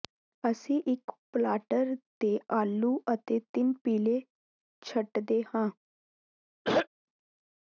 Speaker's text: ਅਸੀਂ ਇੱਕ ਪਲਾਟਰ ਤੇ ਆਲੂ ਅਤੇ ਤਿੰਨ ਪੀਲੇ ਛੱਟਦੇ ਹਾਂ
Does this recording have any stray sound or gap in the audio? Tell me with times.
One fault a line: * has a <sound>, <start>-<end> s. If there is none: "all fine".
* has a throat clearing, 6.6-6.9 s